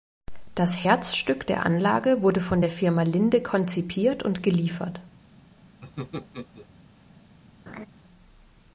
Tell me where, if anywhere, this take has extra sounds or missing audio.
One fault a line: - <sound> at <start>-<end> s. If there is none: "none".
- laugh at 5.8-6.7 s
- laugh at 7.7-7.9 s